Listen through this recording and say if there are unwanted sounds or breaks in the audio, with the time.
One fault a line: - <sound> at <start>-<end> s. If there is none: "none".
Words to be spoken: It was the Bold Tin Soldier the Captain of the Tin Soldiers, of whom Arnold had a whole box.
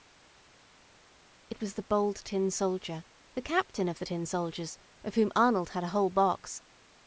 none